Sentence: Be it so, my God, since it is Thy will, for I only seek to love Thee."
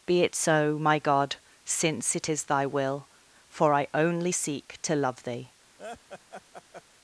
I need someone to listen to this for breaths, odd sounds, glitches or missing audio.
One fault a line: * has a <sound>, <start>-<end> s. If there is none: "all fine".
* has a laugh, 5.8-6.8 s